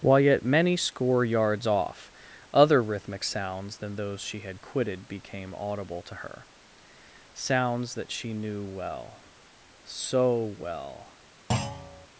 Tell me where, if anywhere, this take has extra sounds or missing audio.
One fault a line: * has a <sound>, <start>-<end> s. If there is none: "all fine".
* has a thud, 11.5-12.1 s